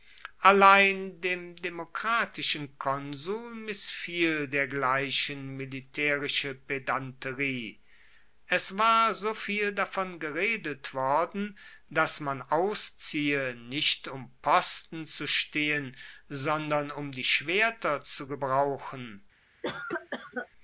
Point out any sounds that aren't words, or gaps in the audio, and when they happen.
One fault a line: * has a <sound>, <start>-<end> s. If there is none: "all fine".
* has a cough, 19.6-20.5 s